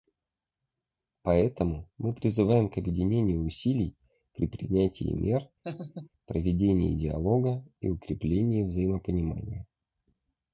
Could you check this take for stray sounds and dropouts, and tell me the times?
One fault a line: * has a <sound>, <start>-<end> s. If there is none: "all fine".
* has a laugh, 5.6-6.1 s